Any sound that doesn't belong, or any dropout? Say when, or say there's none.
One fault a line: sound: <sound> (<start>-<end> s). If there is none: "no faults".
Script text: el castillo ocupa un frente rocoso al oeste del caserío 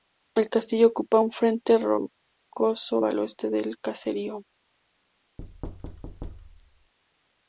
sound: thud (5.4-6.9 s)